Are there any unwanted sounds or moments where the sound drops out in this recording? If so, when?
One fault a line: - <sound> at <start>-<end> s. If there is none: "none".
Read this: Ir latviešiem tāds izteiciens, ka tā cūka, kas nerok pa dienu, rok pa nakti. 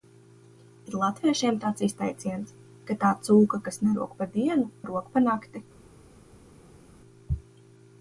none